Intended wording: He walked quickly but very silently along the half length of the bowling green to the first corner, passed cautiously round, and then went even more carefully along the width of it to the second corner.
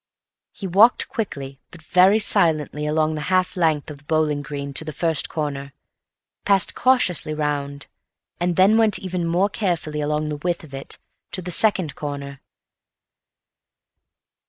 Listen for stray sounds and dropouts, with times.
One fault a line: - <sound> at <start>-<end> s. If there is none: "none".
none